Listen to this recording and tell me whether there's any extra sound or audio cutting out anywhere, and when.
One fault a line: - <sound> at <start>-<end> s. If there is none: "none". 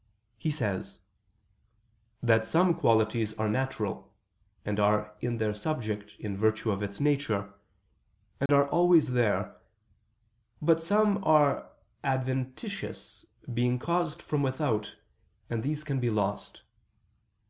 - dropout at 8.5-8.5 s